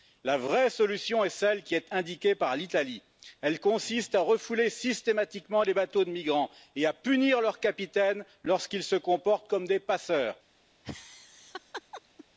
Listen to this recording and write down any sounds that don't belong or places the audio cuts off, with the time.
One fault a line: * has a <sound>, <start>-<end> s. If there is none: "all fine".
* has a laugh, 10.8-12.3 s